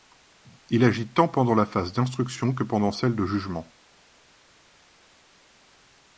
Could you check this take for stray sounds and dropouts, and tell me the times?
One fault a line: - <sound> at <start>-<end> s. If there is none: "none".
none